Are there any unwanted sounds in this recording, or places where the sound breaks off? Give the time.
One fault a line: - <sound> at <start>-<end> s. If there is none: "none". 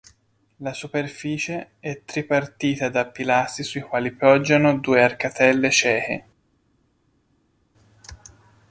none